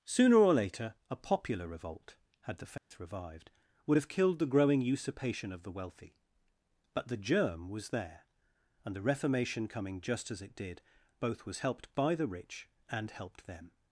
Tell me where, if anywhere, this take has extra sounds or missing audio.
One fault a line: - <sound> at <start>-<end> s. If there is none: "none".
- dropout at 2.8-2.9 s